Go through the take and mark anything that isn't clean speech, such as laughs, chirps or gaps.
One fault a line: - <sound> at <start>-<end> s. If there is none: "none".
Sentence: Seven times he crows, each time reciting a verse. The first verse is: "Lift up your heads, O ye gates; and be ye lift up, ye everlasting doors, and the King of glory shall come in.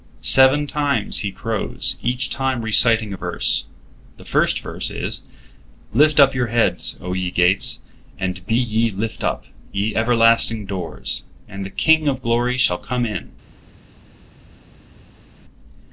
none